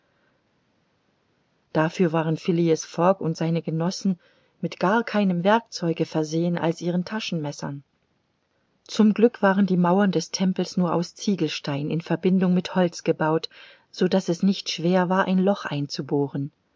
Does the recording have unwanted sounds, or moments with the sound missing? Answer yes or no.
no